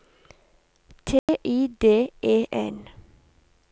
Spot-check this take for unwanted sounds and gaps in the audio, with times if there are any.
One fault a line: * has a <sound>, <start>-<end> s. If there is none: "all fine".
* has a dropout, 1.2-1.3 s